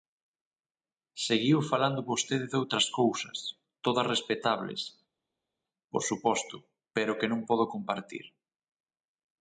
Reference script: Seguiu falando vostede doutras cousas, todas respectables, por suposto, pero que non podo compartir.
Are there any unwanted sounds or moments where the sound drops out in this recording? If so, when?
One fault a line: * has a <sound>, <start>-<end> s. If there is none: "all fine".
all fine